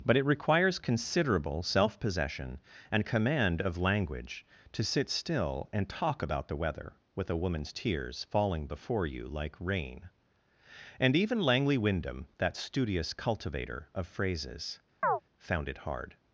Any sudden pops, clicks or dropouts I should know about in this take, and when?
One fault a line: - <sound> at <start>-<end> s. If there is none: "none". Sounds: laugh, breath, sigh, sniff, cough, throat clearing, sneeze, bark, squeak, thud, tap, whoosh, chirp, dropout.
- chirp at 15.0-15.2 s